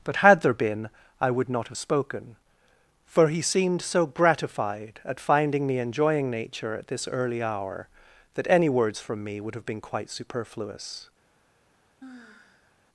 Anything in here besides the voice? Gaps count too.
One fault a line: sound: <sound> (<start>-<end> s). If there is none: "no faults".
sound: sigh (12.0-12.8 s)